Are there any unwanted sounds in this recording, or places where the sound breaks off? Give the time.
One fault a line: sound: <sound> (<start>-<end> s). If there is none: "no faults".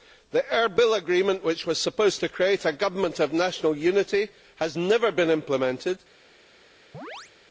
sound: chirp (6.9-7.3 s)